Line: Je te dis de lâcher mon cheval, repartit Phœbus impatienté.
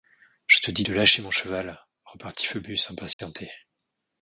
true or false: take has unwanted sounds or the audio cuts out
true